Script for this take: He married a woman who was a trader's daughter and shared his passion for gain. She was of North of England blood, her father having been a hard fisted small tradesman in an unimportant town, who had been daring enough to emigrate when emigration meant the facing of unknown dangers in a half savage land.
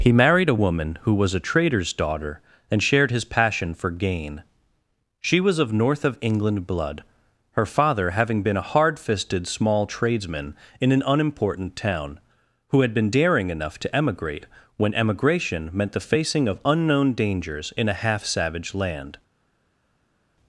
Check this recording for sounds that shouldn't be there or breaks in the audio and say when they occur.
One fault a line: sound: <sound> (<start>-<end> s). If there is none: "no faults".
no faults